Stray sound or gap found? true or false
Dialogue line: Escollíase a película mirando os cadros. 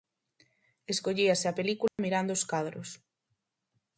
true